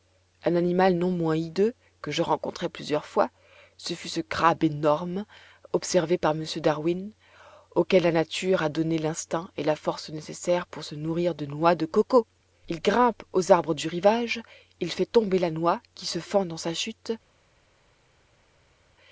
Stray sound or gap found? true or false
false